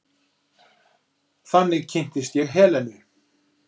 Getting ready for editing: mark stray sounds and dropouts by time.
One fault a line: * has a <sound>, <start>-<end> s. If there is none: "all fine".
all fine